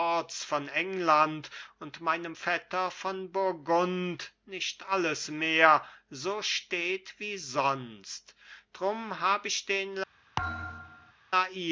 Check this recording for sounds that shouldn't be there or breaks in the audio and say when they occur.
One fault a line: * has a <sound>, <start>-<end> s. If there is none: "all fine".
* has a thud, 10.4-11.1 s